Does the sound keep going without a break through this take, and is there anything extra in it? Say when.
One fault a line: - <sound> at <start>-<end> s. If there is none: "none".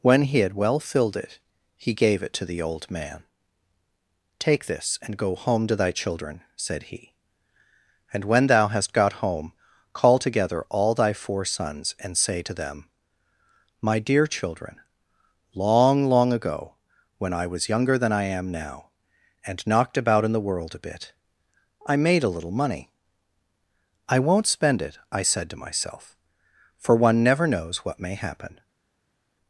none